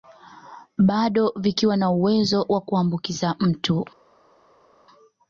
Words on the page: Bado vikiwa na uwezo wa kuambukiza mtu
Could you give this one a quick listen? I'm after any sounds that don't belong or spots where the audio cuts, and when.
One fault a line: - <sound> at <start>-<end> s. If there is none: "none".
none